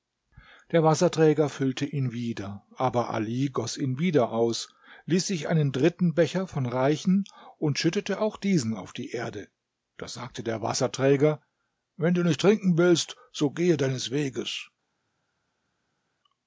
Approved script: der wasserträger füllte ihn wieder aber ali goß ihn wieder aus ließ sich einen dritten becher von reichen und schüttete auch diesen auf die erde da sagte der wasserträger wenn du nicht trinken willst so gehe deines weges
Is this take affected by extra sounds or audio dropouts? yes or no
no